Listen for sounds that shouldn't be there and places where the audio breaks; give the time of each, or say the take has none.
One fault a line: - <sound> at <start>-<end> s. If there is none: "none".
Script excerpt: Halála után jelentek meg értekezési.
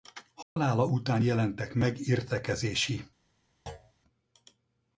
- dropout at 0.4-0.6 s
- thud at 3.7-3.9 s